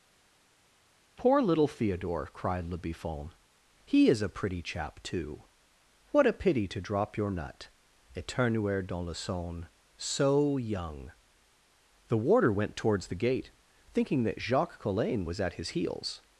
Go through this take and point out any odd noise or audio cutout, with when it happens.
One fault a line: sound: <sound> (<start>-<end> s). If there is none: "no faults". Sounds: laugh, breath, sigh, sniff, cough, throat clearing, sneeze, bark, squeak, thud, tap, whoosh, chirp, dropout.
no faults